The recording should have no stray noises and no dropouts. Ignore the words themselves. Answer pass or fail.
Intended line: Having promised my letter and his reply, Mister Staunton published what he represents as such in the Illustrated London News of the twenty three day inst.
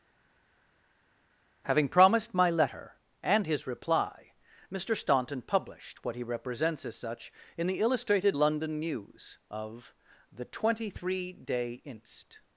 pass